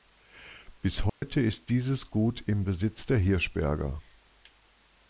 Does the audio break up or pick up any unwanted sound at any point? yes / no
yes